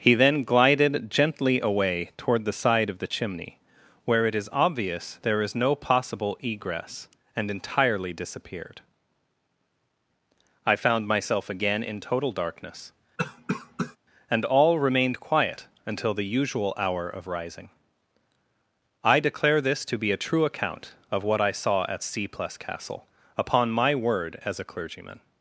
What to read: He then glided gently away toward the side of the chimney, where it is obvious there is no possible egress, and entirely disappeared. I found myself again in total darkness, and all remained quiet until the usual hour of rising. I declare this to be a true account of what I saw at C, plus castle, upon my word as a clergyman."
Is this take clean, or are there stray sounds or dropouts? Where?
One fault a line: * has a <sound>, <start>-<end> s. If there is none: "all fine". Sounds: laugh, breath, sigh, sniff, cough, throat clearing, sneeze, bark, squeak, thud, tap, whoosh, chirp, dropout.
* has a cough, 13.2-14.0 s